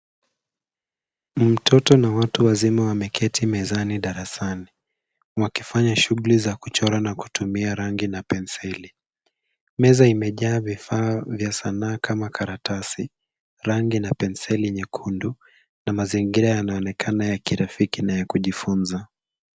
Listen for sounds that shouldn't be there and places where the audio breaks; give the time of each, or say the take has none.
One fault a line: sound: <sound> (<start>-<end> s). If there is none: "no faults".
no faults